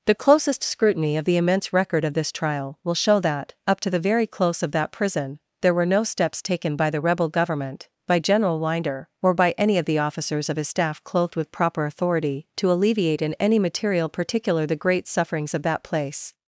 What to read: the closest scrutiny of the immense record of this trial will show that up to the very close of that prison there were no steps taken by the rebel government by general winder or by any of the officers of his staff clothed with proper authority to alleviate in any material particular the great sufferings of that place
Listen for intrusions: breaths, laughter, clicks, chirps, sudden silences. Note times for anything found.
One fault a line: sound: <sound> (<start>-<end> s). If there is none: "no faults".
no faults